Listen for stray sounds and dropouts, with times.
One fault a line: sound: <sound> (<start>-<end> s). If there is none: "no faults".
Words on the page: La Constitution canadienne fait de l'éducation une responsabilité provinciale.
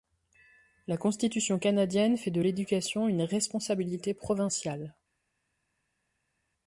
no faults